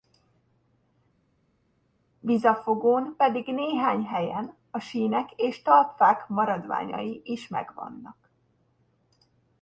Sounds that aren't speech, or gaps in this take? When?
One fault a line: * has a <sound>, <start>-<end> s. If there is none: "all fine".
all fine